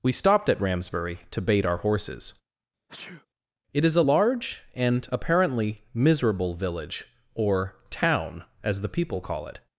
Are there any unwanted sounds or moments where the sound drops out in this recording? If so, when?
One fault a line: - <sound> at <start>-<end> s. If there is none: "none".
- sneeze at 2.9-3.3 s